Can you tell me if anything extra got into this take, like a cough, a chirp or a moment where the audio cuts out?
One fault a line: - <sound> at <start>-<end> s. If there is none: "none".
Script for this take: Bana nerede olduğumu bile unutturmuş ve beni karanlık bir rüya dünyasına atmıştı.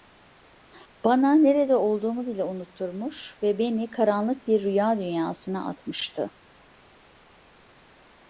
none